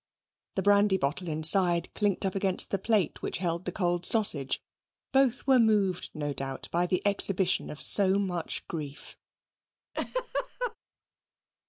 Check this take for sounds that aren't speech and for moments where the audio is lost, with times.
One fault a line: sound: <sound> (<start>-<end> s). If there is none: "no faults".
sound: laugh (9.9-10.8 s)